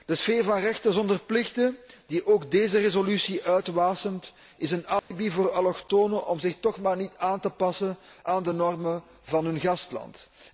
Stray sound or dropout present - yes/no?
yes